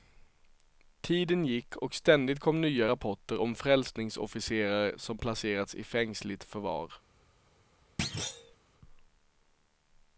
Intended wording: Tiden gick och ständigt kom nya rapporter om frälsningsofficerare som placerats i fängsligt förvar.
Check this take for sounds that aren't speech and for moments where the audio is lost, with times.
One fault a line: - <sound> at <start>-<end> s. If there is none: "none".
- thud at 8.0-8.6 s